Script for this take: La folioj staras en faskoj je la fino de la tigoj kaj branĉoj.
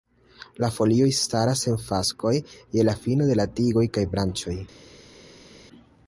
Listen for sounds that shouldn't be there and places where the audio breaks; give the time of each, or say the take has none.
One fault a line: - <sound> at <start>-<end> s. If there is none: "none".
none